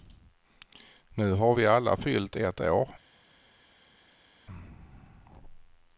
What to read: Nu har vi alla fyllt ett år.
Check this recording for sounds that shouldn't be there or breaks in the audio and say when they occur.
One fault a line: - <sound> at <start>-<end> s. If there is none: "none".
none